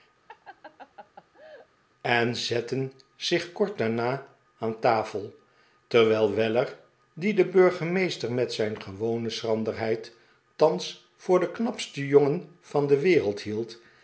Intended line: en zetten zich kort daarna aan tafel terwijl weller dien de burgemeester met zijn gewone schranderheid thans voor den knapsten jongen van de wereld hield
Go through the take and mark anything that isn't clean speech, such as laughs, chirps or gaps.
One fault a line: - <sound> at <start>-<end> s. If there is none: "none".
- laugh at 0.3-1.7 s